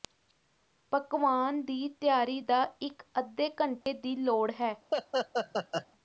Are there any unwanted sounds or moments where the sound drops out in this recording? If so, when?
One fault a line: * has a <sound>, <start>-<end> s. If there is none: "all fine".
* has a dropout, 3.8-3.9 s
* has a laugh, 4.9-5.9 s